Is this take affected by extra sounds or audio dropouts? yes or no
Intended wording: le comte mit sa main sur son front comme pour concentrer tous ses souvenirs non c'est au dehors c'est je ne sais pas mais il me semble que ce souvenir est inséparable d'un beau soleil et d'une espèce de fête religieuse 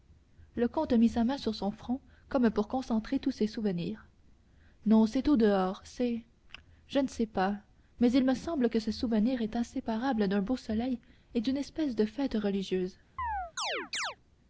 yes